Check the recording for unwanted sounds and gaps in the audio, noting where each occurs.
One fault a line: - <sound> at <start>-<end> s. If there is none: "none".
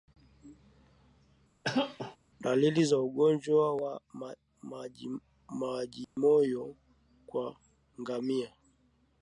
- cough at 1.6-2.2 s
- dropout at 6.0-6.2 s